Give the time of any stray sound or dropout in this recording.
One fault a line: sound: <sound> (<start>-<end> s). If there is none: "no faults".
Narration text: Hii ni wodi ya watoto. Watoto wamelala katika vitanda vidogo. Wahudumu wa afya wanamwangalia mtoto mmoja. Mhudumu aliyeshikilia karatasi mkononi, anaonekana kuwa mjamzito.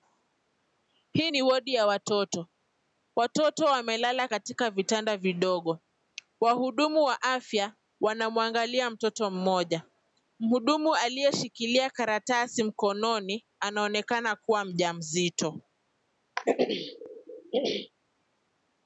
sound: throat clearing (16.4-17.9 s)